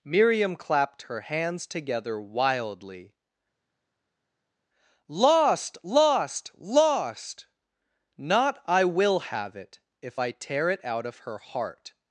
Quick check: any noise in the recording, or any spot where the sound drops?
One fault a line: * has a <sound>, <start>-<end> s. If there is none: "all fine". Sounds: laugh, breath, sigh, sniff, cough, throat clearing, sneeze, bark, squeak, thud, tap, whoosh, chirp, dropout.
all fine